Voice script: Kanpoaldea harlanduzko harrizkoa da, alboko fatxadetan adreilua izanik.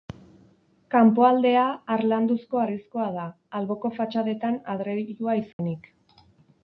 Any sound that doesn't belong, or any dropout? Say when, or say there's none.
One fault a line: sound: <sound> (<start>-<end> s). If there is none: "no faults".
sound: dropout (5.5-5.6 s)